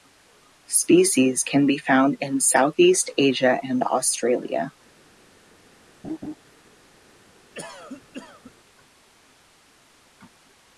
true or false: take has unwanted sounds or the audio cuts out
true